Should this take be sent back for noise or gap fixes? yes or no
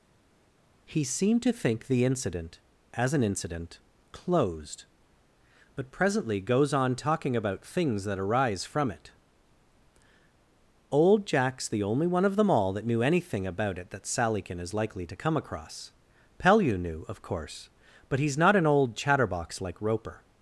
no